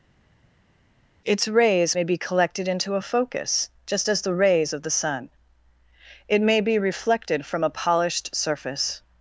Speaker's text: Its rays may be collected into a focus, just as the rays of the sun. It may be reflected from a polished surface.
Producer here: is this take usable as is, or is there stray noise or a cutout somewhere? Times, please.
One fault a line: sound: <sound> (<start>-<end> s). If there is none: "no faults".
no faults